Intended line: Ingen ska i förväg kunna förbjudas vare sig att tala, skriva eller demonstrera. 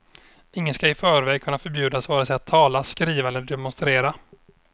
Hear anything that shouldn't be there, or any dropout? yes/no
no